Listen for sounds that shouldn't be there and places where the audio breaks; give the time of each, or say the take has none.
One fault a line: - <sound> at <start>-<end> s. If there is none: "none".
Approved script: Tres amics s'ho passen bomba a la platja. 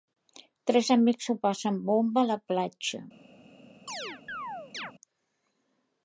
- chirp at 3.9-4.9 s